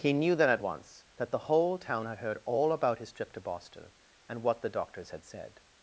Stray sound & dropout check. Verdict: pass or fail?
pass